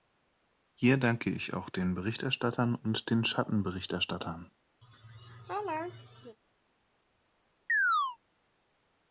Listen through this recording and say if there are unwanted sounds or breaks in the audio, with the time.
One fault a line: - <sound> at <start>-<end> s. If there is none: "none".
- laugh at 4.8-6.4 s
- chirp at 7.7-8.2 s